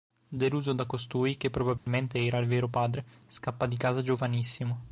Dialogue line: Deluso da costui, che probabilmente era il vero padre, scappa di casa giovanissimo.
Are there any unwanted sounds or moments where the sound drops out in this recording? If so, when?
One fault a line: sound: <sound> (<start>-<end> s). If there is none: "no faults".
sound: dropout (1.8-1.9 s)